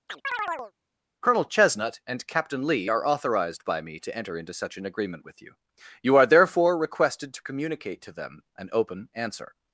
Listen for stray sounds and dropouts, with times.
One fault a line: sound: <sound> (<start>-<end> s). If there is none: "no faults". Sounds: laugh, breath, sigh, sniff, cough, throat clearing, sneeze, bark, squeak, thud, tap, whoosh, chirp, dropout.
sound: chirp (0.1-0.7 s)